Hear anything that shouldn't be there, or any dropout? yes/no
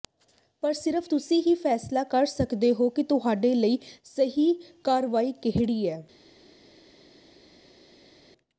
no